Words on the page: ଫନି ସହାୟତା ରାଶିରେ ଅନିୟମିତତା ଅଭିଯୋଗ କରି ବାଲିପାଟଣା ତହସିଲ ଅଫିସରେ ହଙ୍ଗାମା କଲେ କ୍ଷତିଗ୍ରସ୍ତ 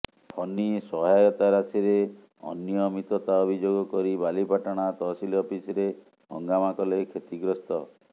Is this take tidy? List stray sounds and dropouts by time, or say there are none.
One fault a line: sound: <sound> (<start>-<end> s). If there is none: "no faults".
no faults